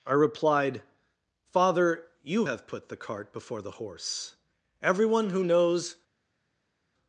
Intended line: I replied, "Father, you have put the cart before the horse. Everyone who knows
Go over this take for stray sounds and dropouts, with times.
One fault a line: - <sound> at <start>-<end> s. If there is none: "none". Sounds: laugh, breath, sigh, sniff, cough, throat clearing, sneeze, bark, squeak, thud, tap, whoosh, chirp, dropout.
none